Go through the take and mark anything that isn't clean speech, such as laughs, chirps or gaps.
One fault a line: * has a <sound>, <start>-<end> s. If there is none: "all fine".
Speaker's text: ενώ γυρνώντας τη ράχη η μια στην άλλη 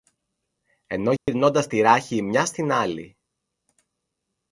* has a dropout, 1.2-1.3 s